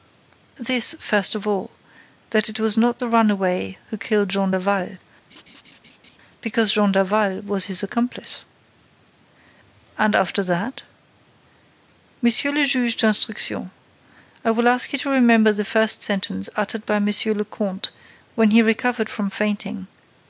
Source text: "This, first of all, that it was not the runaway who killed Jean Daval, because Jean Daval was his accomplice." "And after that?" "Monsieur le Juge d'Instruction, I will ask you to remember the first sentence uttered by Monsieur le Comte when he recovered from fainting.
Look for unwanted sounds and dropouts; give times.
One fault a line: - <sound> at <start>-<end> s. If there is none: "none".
- laugh at 5.3-6.2 s